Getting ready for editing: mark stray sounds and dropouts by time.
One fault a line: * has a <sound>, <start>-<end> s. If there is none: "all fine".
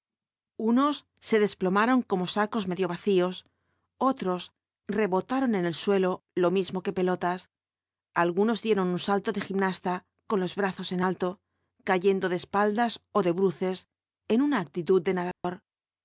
* has a dropout, 15.3-15.4 s